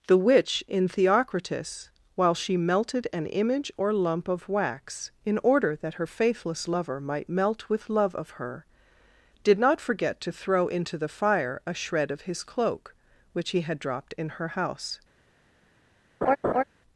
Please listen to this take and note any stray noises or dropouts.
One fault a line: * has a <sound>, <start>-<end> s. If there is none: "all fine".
* has a laugh, 16.2-16.6 s